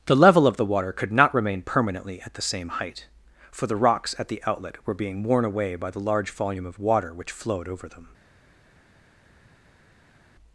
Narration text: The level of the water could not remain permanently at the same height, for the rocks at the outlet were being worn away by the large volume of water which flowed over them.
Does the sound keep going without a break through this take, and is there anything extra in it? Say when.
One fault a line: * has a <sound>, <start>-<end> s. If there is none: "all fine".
all fine